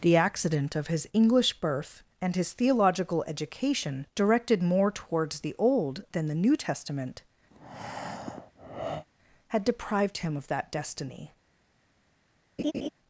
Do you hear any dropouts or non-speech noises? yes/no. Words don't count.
yes